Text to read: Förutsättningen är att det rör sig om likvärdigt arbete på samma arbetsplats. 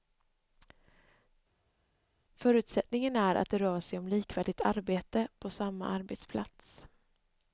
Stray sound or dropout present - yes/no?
no